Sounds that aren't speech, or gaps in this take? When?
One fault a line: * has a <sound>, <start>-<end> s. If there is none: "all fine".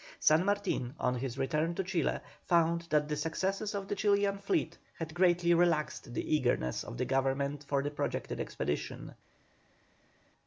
all fine